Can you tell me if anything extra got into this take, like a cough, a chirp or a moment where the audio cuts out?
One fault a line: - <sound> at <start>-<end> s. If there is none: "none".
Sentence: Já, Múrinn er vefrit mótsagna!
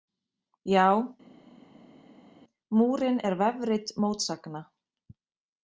none